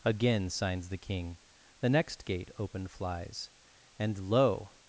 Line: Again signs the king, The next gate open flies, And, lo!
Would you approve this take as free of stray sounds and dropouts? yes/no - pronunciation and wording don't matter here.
yes